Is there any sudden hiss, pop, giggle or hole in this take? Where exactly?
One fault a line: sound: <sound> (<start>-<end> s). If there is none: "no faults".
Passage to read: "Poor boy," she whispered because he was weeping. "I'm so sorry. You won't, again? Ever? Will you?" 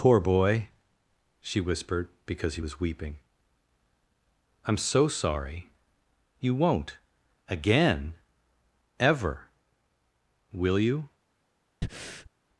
sound: breath (11.8-12.3 s)